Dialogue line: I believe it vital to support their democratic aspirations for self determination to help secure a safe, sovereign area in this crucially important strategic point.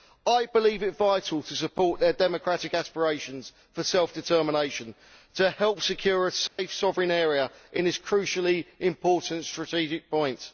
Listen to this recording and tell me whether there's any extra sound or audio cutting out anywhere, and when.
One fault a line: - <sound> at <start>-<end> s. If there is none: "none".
- dropout at 6.5-6.6 s